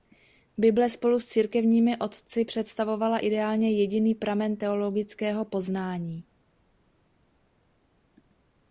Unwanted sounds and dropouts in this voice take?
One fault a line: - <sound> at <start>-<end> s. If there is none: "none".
none